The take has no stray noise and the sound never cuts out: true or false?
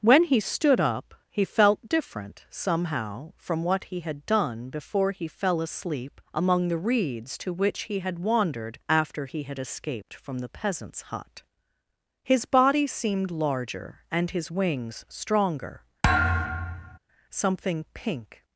false